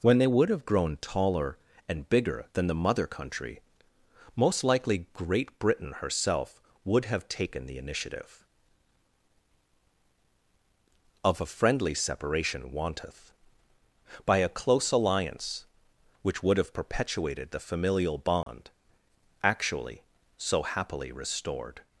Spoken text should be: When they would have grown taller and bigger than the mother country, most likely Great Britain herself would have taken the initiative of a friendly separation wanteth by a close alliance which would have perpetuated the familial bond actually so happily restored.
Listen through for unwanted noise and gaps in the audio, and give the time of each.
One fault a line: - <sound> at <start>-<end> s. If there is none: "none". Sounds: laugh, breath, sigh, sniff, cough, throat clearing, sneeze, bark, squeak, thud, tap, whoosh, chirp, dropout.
- dropout at 18.4-18.5 s